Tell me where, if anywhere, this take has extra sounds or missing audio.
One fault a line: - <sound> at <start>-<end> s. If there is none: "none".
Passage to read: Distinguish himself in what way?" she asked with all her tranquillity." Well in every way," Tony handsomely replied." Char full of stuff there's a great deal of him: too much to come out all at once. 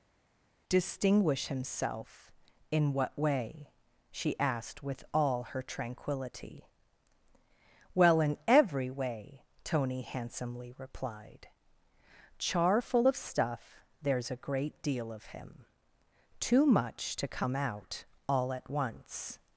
none